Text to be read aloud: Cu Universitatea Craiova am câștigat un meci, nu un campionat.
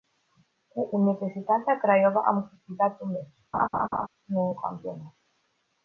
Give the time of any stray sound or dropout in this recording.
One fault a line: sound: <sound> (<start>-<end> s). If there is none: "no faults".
sound: laugh (3.5-4.1 s)